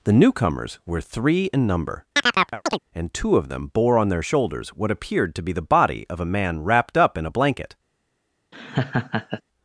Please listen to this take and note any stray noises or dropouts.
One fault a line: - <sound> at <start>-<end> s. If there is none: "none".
- chirp at 2.2-2.8 s
- laugh at 8.5-9.4 s